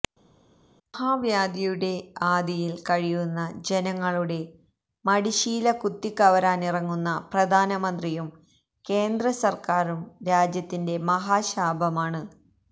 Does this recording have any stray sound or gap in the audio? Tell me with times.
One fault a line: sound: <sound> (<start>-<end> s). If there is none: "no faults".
no faults